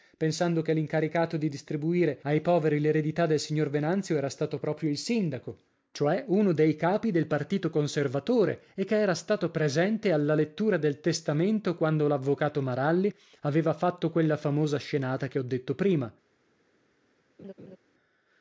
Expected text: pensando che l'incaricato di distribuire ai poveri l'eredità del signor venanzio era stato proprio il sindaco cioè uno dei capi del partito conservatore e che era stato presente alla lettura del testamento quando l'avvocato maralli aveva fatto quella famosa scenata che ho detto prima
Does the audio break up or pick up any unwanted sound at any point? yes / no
yes